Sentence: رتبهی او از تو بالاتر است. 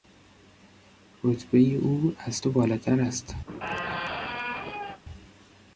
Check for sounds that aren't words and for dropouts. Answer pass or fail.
fail